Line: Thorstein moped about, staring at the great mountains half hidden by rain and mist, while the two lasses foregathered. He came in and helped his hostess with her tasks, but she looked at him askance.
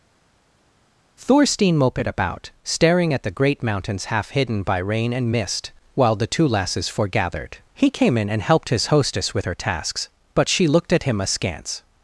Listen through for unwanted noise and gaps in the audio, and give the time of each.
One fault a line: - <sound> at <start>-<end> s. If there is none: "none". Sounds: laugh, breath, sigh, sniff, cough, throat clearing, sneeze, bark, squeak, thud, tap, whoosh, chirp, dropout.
none